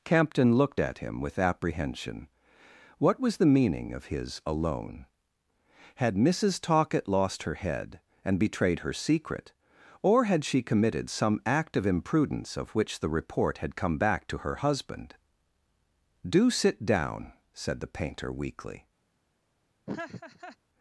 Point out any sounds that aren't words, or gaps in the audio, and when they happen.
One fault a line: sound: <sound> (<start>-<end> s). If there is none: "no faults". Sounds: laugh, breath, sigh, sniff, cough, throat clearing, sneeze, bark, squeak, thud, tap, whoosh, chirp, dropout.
sound: laugh (19.9-20.6 s)